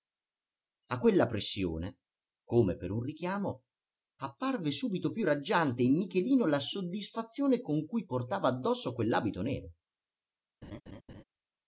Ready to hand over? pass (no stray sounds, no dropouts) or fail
fail